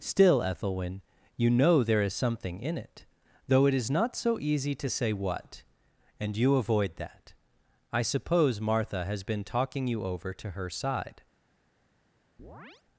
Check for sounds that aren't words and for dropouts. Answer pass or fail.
fail